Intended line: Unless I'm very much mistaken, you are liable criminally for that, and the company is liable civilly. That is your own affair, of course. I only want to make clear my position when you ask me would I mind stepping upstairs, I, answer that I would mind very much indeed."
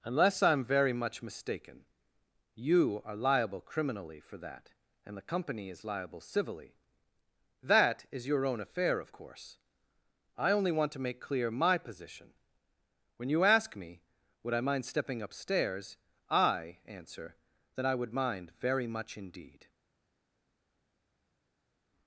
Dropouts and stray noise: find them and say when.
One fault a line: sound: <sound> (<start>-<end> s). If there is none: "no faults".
no faults